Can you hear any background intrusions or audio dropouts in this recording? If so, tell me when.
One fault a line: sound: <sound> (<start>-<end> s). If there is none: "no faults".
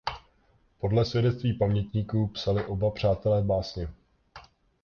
no faults